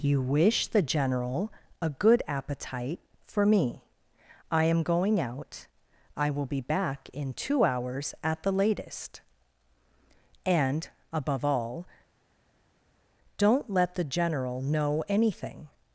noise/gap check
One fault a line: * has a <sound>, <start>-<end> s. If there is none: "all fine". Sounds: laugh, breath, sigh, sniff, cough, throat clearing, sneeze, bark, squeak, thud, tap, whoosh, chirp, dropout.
all fine